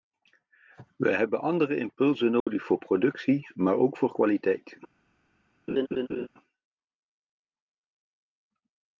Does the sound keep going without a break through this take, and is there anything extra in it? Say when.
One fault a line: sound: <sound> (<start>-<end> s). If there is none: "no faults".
sound: dropout (2.4-2.5 s)
sound: laugh (5.7-6.3 s)